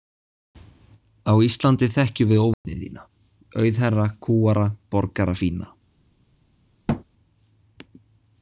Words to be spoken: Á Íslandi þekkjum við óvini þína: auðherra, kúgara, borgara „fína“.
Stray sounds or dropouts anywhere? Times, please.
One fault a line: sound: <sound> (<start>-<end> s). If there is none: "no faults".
sound: dropout (2.5-2.6 s)
sound: thud (6.9-7.0 s)